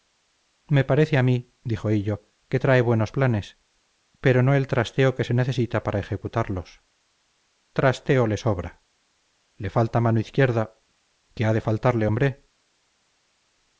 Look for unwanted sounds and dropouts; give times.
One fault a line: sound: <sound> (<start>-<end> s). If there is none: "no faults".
no faults